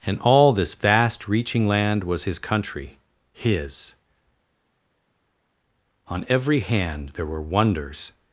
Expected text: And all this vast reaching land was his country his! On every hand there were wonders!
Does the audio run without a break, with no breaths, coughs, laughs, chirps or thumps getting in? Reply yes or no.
yes